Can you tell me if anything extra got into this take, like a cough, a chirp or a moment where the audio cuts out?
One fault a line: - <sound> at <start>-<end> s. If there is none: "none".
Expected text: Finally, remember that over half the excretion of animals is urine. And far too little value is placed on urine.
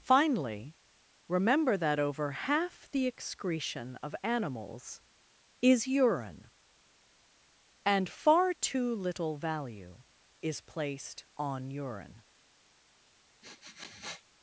- sniff at 13.4-14.2 s